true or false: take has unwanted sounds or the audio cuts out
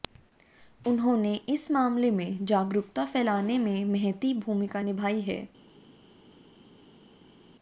false